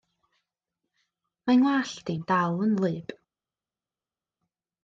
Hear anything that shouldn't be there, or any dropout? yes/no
no